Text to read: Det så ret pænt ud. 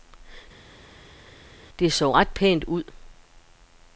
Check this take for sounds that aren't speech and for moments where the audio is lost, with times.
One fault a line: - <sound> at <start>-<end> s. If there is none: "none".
none